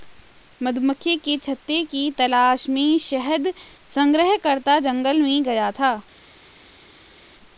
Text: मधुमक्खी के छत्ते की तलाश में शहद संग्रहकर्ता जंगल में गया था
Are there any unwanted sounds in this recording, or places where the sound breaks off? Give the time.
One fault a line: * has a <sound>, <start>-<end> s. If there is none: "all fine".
all fine